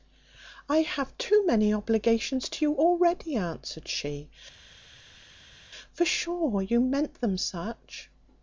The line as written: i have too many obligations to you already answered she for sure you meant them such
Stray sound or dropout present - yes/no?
no